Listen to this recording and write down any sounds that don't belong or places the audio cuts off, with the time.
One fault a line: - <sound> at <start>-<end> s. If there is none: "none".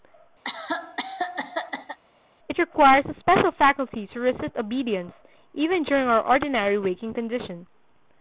- cough at 0.4-2.0 s